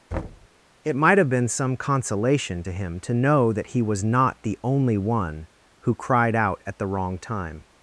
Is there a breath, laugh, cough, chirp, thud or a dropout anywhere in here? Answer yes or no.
yes